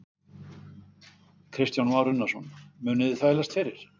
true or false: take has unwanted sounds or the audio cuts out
false